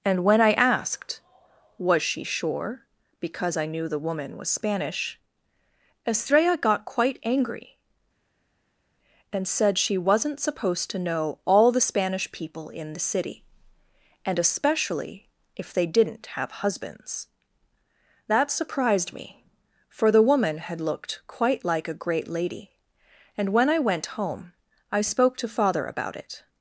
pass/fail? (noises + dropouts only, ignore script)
pass